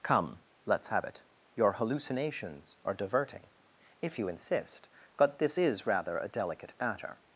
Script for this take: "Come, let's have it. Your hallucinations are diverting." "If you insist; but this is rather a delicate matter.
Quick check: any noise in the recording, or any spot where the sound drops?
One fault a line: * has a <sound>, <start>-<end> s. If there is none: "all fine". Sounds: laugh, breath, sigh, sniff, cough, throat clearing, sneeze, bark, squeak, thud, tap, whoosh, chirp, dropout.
all fine